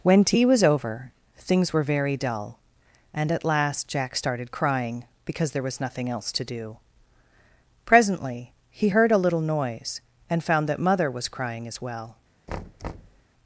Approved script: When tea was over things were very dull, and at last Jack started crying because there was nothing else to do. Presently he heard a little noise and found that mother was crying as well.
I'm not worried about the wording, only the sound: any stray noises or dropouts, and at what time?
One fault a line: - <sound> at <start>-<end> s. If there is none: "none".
- thud at 12.5-13.2 s